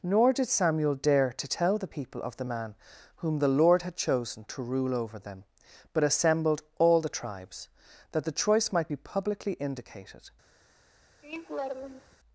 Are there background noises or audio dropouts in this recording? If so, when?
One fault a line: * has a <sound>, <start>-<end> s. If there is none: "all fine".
* has a laugh, 11.2-12.2 s